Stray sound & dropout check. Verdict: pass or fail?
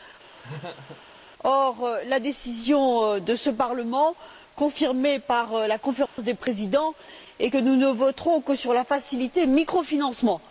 fail